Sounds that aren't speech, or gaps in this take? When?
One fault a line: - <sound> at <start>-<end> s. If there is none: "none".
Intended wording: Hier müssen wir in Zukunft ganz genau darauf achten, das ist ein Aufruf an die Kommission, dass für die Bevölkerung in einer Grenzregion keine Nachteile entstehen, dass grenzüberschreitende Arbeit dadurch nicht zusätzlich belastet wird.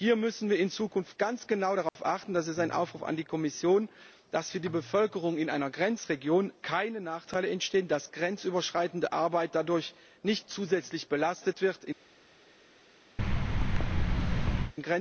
- dropout at 1.9-2.0 s
- thud at 13.2-14.7 s